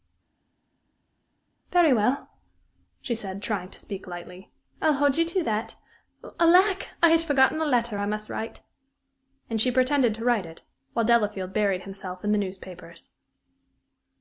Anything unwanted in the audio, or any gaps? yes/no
no